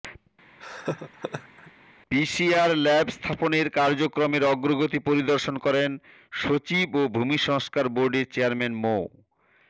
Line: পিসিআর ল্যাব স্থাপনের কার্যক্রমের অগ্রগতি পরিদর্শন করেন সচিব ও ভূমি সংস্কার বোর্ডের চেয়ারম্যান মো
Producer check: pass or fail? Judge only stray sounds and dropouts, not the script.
fail